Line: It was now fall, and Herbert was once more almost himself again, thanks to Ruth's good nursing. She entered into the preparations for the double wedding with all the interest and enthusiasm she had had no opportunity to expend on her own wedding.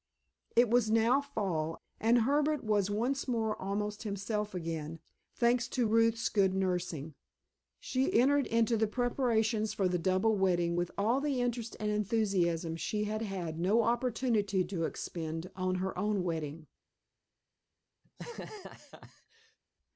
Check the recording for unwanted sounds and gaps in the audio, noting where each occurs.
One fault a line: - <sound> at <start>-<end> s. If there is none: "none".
- laugh at 18.0-19.6 s